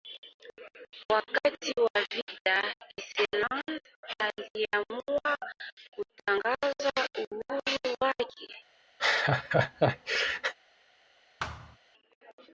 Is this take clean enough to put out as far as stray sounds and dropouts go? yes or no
no